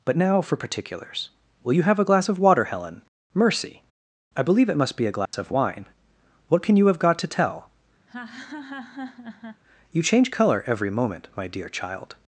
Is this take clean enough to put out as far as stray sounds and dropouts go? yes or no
no